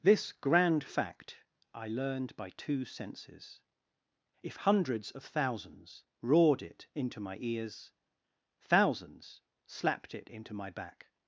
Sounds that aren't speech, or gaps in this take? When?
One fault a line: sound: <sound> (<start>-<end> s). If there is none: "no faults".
no faults